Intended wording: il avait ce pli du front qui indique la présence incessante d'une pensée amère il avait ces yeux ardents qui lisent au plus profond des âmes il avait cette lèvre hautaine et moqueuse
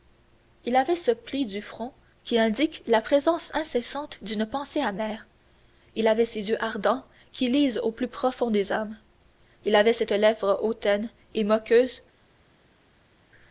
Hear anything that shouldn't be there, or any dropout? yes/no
no